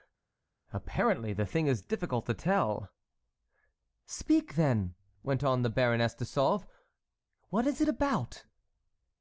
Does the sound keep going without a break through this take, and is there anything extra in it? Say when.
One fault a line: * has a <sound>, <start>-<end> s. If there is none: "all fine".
all fine